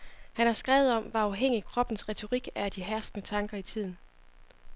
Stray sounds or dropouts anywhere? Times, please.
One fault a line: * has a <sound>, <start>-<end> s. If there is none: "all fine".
all fine